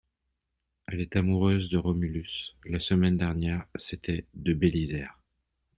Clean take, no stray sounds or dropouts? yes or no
yes